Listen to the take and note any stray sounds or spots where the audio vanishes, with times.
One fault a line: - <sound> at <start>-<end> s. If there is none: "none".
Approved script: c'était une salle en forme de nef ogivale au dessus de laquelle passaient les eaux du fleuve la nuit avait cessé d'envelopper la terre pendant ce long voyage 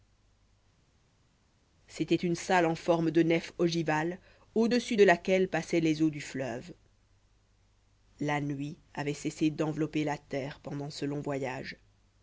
none